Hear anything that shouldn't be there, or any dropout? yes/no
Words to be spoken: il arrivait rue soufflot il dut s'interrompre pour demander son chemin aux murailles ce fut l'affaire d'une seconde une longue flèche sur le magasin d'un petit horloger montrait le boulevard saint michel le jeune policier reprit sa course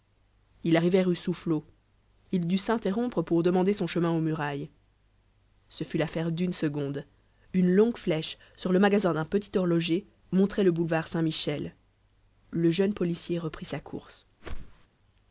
yes